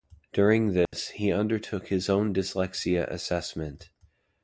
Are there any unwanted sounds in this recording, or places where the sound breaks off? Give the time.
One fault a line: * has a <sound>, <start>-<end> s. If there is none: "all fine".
* has a dropout, 0.9-0.9 s